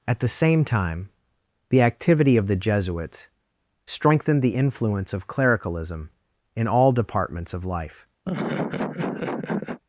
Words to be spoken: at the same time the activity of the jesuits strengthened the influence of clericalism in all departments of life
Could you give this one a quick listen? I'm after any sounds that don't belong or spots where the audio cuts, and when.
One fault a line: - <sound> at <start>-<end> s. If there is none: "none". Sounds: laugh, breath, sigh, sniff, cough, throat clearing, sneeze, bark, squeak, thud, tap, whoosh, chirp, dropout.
- laugh at 8.2-9.8 s